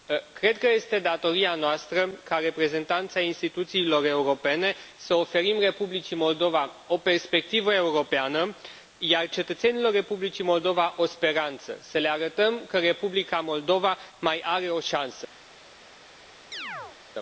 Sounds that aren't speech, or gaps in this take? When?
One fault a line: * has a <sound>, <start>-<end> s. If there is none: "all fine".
* has a chirp, 16.5-17.0 s